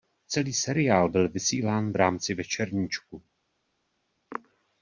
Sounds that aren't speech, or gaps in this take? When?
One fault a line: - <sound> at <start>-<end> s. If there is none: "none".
none